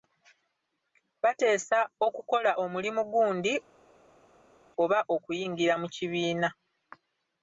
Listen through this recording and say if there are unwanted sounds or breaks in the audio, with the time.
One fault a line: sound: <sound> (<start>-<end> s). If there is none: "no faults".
no faults